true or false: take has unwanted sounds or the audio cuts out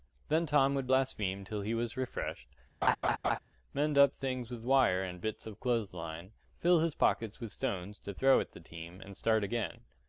true